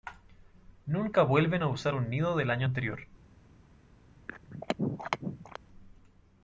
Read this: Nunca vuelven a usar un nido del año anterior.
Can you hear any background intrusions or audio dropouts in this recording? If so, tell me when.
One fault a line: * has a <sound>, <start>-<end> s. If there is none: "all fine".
* has a throat clearing, 4.3-5.6 s